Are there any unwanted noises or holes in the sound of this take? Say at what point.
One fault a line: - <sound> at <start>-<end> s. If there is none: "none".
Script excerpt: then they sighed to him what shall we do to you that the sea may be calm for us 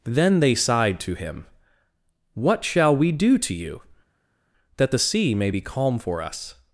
none